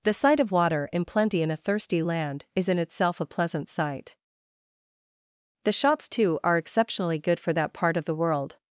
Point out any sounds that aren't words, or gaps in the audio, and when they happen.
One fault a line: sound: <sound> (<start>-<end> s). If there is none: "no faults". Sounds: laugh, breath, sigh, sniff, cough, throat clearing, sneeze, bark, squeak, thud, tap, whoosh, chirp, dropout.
no faults